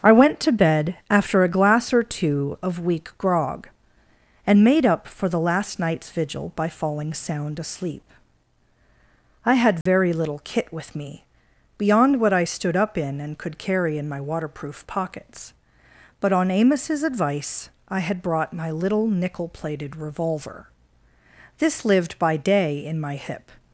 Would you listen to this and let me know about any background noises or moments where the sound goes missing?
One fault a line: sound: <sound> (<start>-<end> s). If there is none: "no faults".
sound: dropout (9.8-9.9 s)